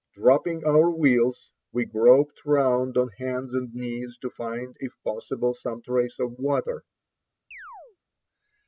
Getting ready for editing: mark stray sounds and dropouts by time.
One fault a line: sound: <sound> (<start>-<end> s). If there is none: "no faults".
sound: chirp (7.5-8.0 s)